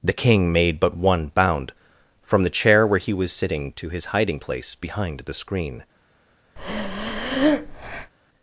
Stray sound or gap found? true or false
true